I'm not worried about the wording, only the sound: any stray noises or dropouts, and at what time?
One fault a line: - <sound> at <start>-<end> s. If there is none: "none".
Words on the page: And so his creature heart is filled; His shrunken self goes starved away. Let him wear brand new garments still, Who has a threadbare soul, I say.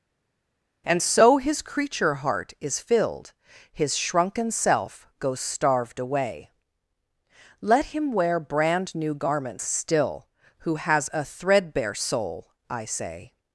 none